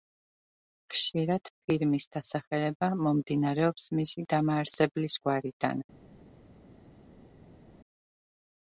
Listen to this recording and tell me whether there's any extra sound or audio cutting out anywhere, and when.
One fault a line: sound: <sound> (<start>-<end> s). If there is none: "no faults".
no faults